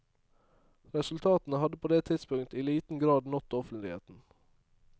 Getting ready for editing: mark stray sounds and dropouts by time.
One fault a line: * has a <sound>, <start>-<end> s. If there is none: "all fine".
all fine